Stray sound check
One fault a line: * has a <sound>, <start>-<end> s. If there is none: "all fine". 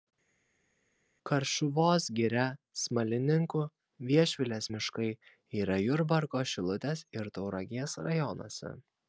all fine